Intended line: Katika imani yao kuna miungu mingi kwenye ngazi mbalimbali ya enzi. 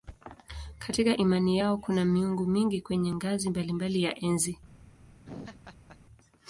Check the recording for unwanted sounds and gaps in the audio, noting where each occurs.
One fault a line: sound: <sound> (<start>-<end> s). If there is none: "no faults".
sound: laugh (5.2-6.0 s)